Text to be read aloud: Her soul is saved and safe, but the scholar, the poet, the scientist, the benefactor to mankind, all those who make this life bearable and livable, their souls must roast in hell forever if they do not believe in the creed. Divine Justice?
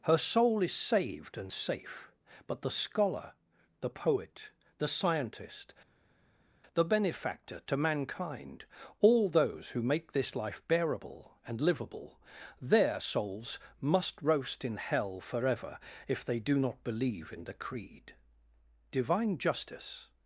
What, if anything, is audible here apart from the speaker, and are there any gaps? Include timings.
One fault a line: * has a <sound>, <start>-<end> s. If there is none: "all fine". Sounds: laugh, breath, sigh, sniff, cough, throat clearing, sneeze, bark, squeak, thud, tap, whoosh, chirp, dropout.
all fine